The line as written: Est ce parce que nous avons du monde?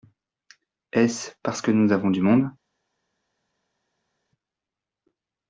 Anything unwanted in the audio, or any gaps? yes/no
no